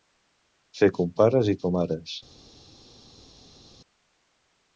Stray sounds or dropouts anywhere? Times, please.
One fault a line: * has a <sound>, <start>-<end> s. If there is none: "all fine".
all fine